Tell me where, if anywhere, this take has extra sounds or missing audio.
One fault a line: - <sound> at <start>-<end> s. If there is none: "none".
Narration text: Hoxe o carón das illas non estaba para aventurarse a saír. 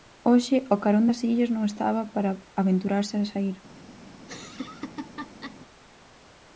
- laugh at 4.2-5.6 s